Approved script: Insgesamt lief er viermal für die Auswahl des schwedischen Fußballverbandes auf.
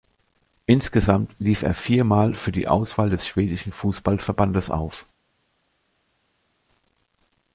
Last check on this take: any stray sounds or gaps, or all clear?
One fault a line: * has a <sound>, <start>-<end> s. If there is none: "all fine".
all fine